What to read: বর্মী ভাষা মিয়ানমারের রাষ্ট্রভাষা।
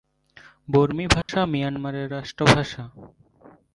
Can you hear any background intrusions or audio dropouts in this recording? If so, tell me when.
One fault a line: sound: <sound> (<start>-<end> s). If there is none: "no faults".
sound: dropout (1.2-1.3 s)